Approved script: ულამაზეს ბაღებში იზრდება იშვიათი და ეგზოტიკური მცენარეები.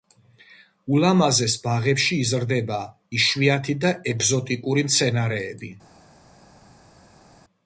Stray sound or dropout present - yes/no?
no